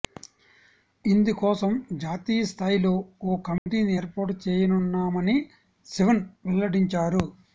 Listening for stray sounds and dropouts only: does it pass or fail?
fail